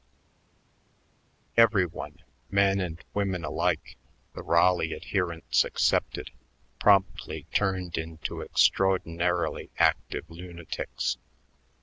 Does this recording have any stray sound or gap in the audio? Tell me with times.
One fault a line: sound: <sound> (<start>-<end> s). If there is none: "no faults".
no faults